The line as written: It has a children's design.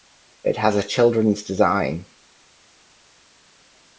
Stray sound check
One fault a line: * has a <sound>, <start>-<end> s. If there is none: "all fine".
all fine